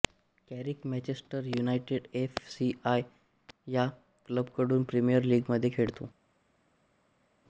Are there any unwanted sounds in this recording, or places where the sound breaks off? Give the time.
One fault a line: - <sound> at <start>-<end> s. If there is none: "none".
none